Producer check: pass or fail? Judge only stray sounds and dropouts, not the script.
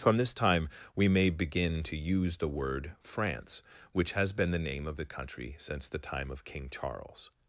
pass